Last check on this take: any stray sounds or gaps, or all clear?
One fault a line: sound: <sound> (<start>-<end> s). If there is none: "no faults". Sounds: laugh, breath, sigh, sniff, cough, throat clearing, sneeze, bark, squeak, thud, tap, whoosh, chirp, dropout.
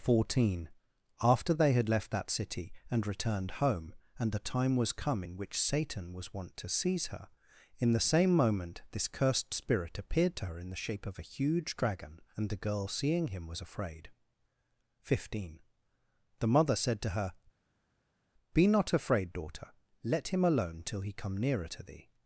no faults